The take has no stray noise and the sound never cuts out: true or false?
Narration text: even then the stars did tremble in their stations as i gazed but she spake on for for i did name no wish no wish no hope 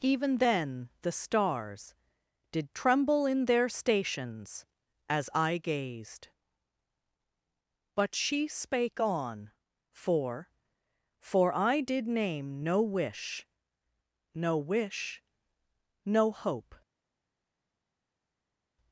true